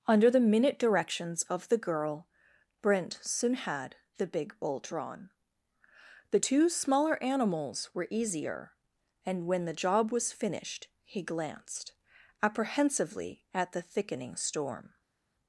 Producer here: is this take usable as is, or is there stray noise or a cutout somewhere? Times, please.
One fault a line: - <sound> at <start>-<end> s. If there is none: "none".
none